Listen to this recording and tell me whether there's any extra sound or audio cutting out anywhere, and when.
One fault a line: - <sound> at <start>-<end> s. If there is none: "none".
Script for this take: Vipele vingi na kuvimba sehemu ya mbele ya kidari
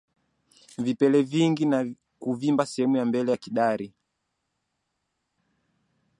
none